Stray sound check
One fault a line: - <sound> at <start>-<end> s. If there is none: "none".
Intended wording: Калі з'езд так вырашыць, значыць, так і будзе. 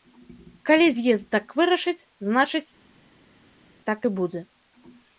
none